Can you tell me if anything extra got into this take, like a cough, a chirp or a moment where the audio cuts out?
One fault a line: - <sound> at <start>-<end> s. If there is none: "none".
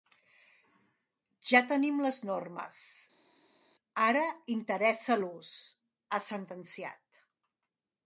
none